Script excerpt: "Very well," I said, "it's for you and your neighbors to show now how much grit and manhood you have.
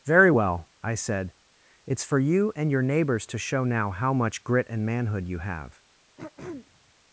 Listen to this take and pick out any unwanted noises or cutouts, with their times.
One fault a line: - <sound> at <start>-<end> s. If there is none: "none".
- throat clearing at 6.2-6.9 s